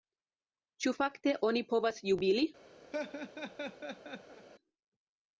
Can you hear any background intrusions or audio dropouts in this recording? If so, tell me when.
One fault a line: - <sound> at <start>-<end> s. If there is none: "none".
- laugh at 2.9-4.5 s